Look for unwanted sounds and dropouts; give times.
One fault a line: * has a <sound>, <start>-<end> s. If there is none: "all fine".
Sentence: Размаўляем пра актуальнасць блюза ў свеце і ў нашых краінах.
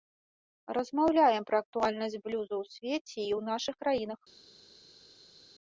all fine